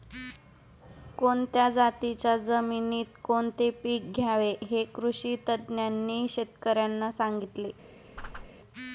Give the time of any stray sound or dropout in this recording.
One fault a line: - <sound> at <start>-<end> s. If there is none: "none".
- whoosh at 8.2-8.5 s